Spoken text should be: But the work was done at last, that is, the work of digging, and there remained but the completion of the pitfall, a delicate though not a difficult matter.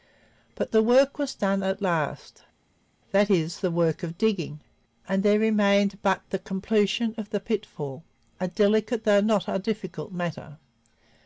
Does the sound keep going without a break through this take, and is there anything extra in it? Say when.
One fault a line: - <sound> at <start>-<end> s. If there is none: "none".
none